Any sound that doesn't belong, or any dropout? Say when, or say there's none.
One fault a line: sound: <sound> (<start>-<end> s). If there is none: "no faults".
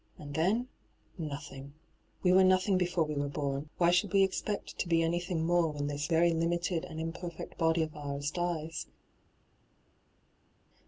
no faults